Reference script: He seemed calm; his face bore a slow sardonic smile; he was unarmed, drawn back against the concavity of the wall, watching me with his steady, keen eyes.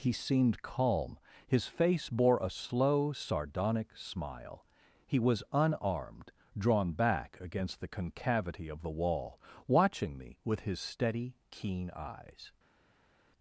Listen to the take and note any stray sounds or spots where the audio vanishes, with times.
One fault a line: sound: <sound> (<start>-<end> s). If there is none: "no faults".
no faults